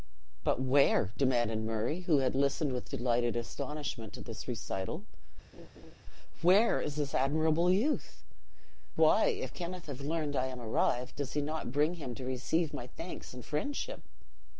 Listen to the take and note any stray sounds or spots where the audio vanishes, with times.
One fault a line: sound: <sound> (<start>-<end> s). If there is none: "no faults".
sound: laugh (5.5-5.9 s)